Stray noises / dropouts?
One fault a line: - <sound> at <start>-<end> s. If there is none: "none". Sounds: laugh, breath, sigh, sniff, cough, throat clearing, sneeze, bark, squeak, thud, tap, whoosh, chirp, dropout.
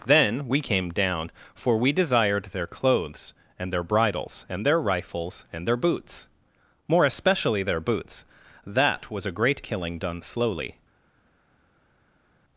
none